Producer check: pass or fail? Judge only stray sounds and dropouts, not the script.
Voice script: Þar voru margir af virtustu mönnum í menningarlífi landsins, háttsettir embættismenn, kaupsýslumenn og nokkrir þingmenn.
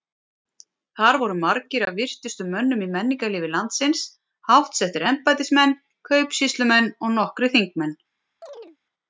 fail